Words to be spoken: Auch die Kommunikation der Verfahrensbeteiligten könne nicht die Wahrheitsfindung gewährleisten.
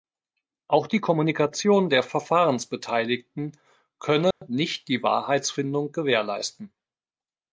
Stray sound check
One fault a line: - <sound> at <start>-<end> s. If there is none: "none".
- dropout at 4.3-4.4 s